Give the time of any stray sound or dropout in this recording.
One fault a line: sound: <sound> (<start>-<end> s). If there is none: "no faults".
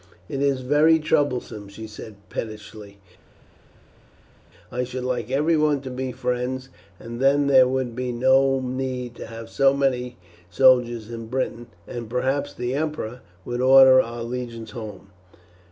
no faults